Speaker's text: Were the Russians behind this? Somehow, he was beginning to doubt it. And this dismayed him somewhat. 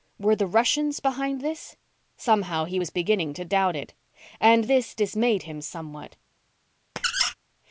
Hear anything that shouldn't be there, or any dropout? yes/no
yes